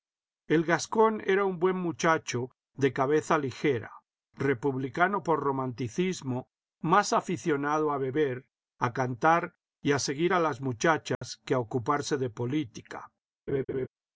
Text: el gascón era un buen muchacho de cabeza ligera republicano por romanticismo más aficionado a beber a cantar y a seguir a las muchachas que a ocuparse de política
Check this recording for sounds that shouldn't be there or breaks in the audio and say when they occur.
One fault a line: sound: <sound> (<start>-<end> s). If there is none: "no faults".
sound: dropout (11.1-11.2 s)
sound: laugh (13.5-13.9 s)